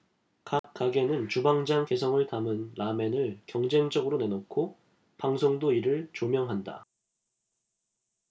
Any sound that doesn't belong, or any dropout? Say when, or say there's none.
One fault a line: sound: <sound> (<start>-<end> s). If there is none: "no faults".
sound: dropout (0.6-0.6 s)